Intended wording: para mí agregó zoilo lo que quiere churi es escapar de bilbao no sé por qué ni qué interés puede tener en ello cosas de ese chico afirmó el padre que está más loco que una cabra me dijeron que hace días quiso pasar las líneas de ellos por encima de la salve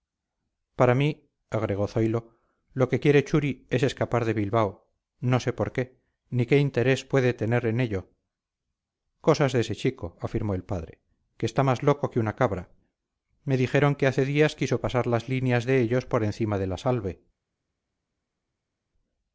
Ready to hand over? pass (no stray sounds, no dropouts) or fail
pass